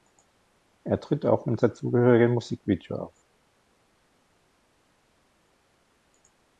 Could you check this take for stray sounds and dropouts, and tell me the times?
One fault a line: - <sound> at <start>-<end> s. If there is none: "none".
none